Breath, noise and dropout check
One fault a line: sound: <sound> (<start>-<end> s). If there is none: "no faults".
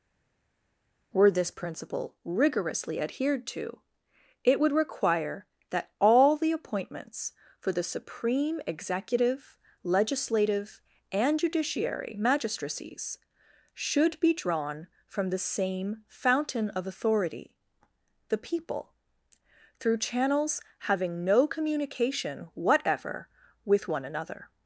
no faults